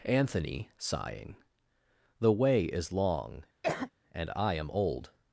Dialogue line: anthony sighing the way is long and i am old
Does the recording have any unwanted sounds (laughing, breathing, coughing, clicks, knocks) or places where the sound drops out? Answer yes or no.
yes